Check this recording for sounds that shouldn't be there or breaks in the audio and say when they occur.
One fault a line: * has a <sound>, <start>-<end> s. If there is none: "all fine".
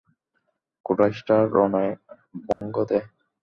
* has a dropout, 2.5-2.6 s